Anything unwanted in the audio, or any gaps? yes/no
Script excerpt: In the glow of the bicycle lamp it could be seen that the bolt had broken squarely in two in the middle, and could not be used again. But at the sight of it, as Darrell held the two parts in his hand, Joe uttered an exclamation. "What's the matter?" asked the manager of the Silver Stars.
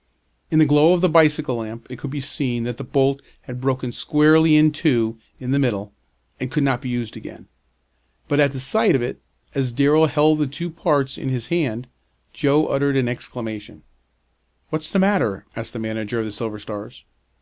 no